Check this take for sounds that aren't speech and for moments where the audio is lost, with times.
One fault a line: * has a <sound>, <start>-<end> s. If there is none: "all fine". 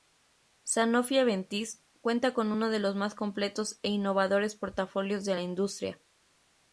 all fine